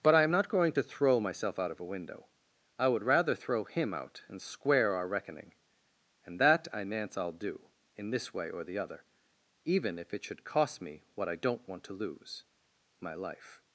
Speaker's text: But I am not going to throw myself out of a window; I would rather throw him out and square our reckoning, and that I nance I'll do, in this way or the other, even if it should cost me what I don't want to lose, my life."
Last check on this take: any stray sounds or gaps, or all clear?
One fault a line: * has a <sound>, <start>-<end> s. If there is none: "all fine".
all fine